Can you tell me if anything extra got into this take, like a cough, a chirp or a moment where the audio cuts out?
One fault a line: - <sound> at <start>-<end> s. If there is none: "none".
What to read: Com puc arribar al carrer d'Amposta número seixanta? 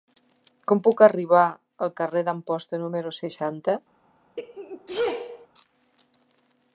- sneeze at 4.4-5.5 s